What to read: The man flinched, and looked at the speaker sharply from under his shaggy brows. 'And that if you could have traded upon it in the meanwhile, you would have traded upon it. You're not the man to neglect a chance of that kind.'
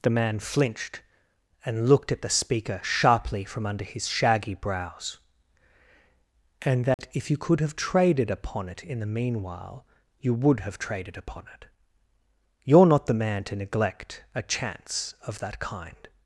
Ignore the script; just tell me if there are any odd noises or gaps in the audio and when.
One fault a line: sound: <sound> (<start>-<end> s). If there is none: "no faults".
sound: dropout (6.9-7.0 s)